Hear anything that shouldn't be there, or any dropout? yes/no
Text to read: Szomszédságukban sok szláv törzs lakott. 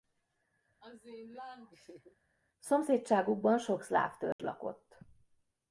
yes